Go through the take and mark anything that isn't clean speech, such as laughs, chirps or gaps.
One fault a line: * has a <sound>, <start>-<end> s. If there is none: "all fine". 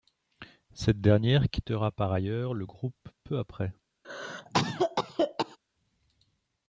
* has a cough, 4.0-5.6 s